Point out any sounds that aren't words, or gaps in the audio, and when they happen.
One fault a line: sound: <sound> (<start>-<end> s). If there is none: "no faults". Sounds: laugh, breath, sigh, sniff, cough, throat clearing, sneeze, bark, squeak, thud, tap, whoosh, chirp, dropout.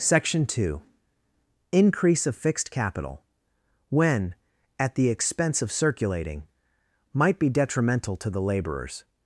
no faults